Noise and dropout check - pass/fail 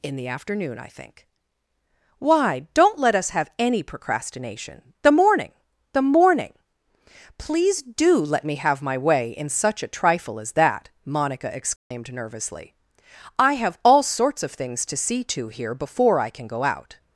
fail